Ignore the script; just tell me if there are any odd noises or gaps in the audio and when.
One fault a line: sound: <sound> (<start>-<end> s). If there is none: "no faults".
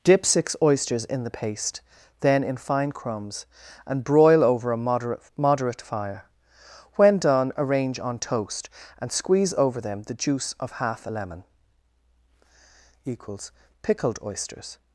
no faults